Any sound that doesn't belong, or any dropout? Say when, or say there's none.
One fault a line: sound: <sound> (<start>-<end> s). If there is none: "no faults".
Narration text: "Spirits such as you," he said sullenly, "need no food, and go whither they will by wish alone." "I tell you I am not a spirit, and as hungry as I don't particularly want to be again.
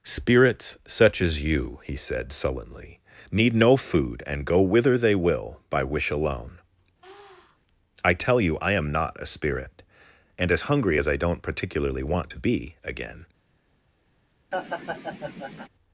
sound: sniff (7.0-7.6 s)
sound: laugh (14.5-15.7 s)